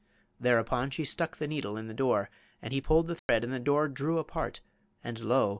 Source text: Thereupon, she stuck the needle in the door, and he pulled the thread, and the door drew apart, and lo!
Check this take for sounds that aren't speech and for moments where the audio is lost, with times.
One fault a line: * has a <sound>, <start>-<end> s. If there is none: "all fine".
* has a dropout, 3.2-3.3 s